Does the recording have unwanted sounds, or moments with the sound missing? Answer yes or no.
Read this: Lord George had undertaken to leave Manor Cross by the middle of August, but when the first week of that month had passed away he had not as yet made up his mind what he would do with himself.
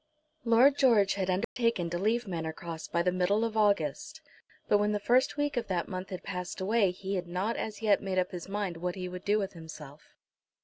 yes